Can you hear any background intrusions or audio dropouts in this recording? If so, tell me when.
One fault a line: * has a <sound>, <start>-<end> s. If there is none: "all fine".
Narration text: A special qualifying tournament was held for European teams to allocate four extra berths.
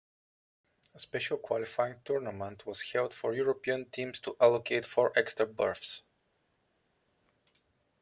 all fine